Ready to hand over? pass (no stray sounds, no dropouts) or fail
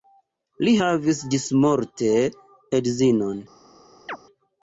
fail